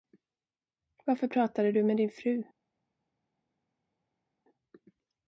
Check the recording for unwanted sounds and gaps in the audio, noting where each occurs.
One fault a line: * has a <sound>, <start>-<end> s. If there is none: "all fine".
all fine